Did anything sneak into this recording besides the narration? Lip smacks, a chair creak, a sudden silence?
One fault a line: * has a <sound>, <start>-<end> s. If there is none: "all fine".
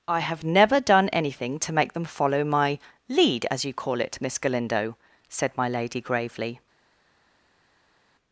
all fine